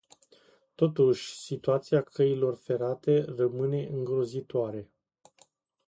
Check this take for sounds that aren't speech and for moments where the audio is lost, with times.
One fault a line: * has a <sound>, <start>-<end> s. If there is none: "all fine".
all fine